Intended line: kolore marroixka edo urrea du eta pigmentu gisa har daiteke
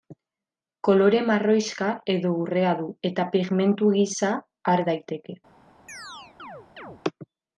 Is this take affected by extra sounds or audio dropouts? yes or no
yes